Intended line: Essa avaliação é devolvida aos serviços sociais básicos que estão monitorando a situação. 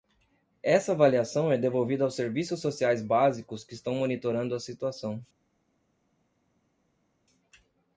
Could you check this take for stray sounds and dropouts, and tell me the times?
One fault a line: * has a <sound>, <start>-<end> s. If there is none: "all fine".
all fine